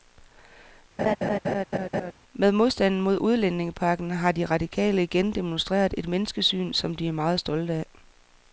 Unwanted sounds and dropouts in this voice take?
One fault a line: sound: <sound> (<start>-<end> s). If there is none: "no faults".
sound: laugh (1.0-2.1 s)